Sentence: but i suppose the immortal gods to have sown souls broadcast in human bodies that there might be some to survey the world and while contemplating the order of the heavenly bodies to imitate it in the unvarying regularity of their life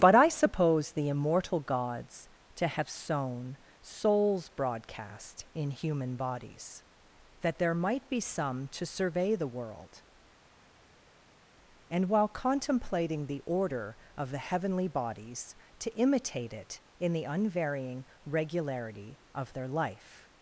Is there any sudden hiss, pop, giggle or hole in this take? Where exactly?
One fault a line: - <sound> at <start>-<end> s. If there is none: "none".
none